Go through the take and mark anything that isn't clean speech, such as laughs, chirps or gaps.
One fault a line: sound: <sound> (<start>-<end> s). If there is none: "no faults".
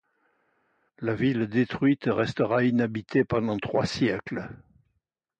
no faults